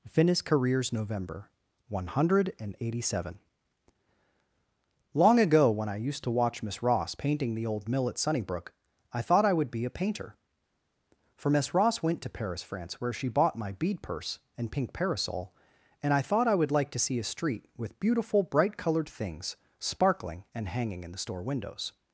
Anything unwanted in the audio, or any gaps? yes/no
no